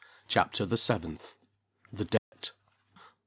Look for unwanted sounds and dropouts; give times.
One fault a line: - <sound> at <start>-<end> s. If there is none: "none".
- dropout at 2.2-2.3 s